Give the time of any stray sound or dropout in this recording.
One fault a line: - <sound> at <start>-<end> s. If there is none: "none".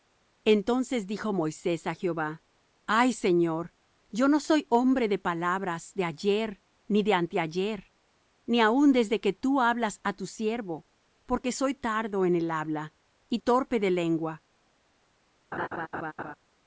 - laugh at 15.5-16.3 s